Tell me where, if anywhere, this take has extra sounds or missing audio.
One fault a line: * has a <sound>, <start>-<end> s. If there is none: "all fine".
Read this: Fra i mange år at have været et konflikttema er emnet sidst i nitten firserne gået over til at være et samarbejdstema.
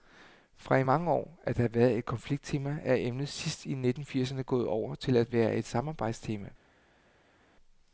all fine